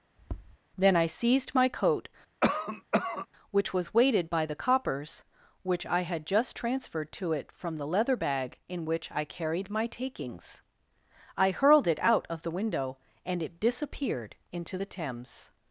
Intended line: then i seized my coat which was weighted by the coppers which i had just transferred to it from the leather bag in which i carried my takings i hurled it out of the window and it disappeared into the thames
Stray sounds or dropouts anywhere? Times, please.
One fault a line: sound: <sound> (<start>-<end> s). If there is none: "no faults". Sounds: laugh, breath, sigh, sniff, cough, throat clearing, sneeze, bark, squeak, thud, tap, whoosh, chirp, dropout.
sound: tap (0.2-0.6 s)
sound: cough (2.4-3.3 s)